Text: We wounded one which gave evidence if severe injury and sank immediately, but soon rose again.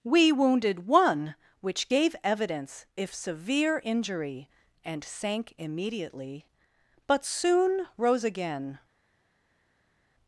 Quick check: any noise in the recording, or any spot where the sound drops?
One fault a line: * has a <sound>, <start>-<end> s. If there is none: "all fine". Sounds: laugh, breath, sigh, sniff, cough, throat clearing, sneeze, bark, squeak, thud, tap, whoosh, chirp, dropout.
all fine